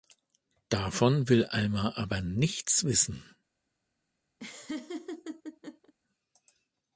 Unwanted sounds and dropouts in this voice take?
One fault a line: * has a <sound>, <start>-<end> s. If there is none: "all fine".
* has a laugh, 4.4-5.9 s